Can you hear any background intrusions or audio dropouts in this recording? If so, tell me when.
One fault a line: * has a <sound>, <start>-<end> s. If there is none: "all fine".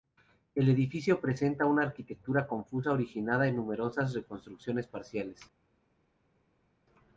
all fine